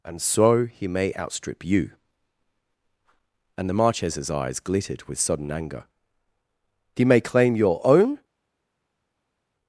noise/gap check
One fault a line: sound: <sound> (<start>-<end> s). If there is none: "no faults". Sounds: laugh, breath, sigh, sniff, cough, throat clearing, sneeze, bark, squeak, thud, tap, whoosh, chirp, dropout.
no faults